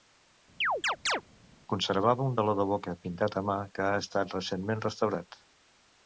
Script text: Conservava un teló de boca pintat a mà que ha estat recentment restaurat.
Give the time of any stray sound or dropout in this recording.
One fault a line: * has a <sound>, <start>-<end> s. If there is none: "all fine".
* has a chirp, 0.6-1.2 s